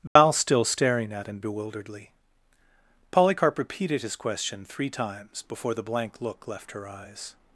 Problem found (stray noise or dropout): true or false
true